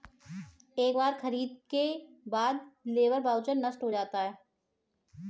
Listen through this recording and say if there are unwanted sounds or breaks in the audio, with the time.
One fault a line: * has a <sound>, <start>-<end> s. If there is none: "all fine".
all fine